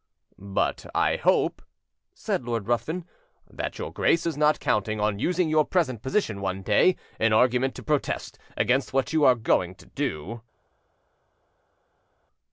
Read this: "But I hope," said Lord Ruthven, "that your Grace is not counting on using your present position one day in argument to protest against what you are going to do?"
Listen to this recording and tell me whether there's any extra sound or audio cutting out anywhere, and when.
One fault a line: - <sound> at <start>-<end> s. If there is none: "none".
none